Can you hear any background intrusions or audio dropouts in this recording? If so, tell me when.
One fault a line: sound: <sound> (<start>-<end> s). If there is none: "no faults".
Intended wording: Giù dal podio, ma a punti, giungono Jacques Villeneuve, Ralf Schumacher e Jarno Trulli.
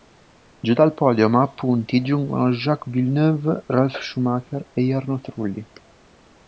no faults